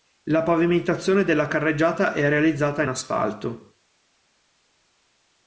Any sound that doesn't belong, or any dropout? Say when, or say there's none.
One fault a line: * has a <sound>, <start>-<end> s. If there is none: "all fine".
all fine